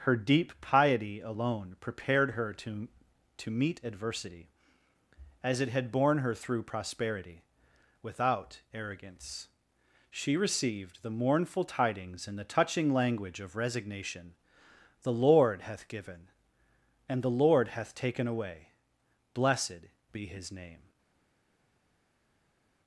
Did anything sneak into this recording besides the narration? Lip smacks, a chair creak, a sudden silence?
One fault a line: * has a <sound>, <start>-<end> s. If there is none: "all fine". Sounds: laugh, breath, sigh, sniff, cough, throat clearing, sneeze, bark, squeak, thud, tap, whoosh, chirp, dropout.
all fine